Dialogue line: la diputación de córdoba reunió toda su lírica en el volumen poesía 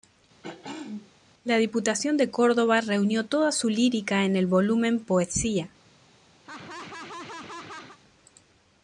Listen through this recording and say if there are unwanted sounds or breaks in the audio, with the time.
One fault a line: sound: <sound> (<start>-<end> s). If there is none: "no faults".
sound: throat clearing (0.4-1.1 s)
sound: laugh (6.4-8.0 s)